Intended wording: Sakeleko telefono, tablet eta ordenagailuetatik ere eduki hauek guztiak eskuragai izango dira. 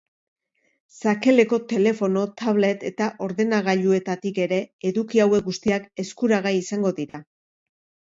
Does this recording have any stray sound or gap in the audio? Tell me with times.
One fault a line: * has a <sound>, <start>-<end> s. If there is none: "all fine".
* has a dropout, 7.1-7.1 s